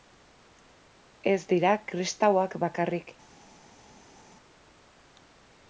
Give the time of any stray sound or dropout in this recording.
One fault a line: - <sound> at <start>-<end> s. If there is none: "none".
none